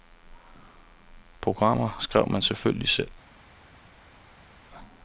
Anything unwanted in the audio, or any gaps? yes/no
no